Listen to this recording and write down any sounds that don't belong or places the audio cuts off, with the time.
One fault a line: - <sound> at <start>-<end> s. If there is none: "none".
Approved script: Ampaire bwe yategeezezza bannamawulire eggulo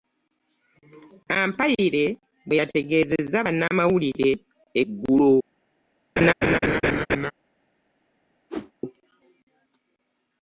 - laugh at 6.2-7.3 s
- whoosh at 8.5-8.7 s